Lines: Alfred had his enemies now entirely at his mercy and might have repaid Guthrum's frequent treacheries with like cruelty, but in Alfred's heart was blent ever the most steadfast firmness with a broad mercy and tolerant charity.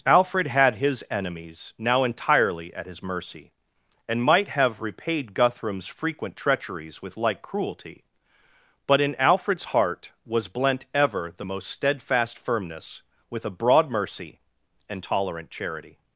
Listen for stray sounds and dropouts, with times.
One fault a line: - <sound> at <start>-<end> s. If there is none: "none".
none